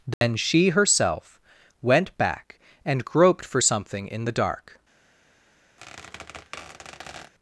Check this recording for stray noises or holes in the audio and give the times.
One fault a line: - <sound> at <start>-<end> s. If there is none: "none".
- dropout at 0.1-0.2 s
- squeak at 5.8-7.3 s